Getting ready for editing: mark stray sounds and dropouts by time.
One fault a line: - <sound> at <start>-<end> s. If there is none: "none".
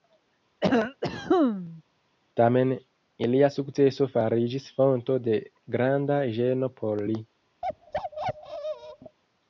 - cough at 0.6-1.8 s
- bark at 7.6-9.2 s